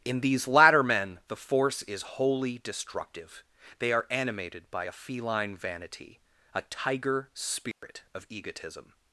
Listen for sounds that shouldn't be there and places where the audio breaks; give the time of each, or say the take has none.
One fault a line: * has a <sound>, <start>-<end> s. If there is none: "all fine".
* has a dropout, 7.7-7.8 s